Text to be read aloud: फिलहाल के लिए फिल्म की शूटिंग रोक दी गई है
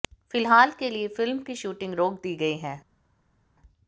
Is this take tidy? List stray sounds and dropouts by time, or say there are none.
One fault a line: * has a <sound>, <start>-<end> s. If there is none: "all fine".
all fine